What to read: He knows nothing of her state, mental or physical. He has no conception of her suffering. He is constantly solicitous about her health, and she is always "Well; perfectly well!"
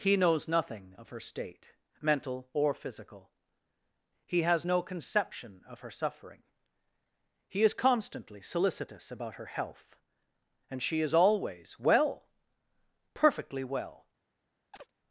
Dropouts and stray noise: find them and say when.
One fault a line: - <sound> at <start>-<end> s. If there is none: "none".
- chirp at 14.7-14.9 s